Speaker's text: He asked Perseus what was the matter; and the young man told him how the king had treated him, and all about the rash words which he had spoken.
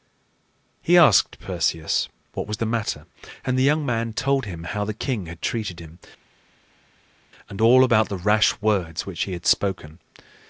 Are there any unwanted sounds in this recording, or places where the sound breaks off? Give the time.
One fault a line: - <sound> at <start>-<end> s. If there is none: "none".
none